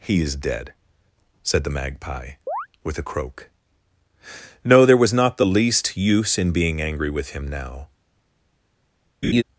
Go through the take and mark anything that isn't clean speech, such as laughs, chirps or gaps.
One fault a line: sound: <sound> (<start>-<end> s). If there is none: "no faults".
sound: chirp (2.5-2.7 s)
sound: laugh (9.2-9.4 s)